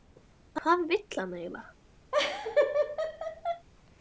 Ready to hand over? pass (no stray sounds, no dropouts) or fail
fail